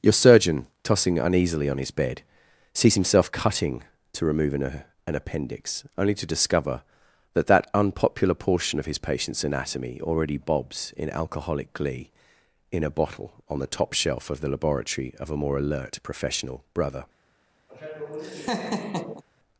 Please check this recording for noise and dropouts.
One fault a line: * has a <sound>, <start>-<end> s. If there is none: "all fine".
* has a laugh, 17.7-19.2 s